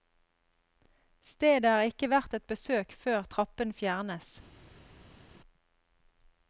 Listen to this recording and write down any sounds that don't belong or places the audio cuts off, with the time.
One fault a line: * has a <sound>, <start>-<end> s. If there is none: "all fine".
all fine